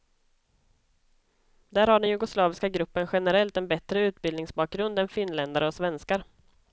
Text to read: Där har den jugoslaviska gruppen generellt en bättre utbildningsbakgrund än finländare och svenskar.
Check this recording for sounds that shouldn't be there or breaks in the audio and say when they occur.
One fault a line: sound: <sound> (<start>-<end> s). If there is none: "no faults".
no faults